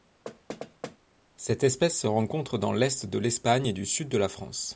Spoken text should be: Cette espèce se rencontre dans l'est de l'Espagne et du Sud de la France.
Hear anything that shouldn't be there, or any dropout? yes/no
yes